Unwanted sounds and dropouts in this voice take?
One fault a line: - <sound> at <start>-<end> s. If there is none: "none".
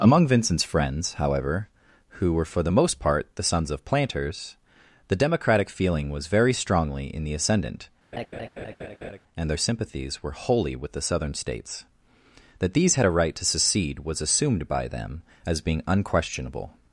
- laugh at 8.1-9.2 s